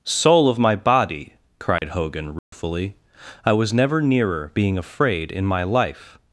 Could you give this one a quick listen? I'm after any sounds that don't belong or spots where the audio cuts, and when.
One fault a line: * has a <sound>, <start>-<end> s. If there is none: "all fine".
* has a dropout, 1.8-1.8 s
* has a dropout, 2.4-2.5 s